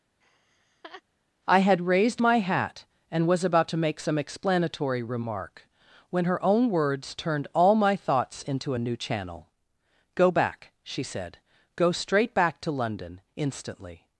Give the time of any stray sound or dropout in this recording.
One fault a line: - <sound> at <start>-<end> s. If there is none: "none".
- laugh at 0.2-1.0 s